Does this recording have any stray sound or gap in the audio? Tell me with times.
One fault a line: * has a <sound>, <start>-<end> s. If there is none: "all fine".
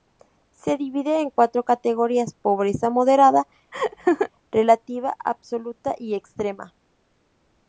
* has a laugh, 3.7-4.3 s